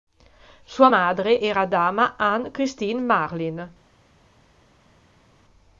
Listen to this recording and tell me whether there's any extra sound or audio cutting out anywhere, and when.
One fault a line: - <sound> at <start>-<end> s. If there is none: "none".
none